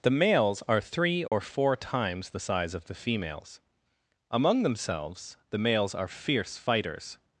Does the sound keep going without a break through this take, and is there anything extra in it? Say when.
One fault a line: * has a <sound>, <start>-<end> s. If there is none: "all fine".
* has a dropout, 1.3-1.3 s